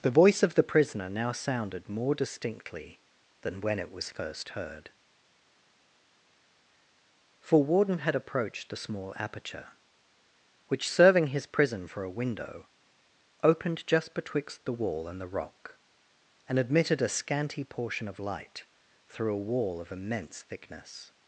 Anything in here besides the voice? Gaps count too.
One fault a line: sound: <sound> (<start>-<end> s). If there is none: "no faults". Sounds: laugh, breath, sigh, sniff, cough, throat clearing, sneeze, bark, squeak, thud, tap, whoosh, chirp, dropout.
no faults